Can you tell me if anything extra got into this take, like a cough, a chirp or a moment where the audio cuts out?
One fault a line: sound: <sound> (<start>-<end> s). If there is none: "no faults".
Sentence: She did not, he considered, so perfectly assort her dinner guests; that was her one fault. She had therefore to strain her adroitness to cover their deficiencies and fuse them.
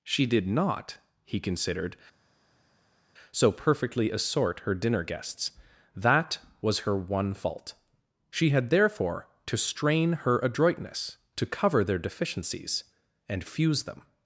no faults